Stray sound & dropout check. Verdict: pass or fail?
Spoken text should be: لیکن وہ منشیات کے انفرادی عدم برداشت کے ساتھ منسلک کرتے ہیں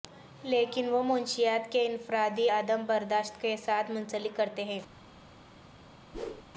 fail